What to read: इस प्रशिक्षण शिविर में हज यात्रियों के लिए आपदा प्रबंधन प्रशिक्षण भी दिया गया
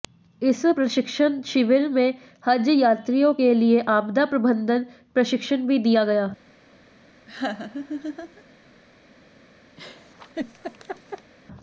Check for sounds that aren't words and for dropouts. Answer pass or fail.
fail